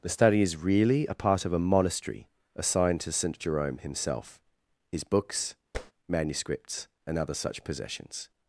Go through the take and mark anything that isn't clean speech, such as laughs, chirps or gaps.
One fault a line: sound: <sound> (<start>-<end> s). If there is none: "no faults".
sound: tap (5.7-5.9 s)